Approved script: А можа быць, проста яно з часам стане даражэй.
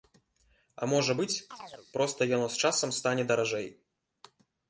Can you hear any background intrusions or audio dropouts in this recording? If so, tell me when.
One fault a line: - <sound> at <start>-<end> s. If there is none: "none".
- chirp at 1.5-1.9 s